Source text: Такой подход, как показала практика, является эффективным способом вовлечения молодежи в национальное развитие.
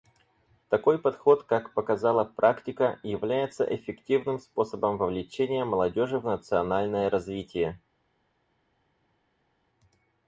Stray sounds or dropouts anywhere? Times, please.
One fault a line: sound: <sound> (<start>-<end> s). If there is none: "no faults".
no faults